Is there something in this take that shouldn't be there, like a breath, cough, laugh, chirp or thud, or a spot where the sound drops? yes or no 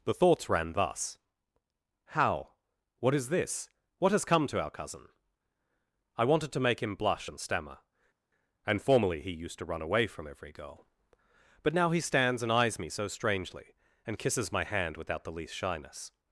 no